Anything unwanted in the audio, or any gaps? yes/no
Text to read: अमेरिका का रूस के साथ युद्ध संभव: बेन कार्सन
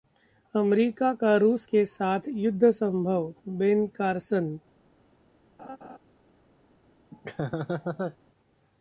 yes